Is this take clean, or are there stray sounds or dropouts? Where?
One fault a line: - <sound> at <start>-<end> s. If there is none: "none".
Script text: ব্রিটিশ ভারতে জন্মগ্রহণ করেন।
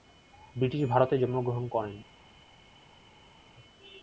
none